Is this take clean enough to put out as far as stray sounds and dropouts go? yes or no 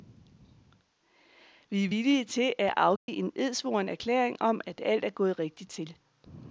no